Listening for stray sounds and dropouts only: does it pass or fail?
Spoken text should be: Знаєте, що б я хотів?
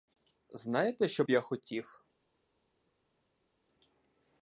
pass